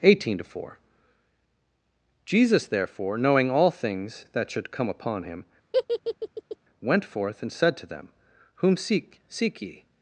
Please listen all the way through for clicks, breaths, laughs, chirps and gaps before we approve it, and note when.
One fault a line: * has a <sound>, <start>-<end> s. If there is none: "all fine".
* has a laugh, 5.7-6.6 s